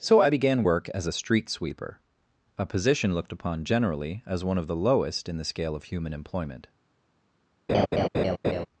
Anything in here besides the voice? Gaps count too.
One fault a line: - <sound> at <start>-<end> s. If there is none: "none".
- laugh at 7.7-8.7 s